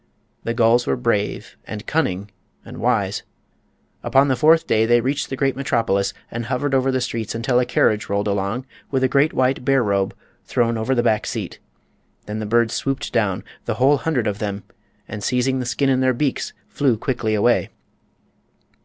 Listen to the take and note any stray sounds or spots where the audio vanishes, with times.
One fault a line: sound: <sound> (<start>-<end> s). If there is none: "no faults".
no faults